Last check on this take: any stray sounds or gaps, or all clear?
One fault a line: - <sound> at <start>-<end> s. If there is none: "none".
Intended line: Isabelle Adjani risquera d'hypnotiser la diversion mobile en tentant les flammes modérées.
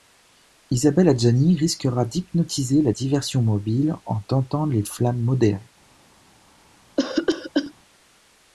- cough at 7.0-7.7 s